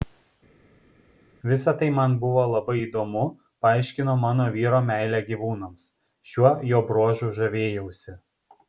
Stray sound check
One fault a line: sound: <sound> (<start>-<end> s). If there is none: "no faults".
no faults